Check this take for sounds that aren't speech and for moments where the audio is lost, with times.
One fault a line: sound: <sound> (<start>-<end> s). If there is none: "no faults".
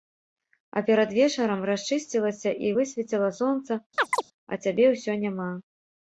sound: chirp (4.0-4.2 s)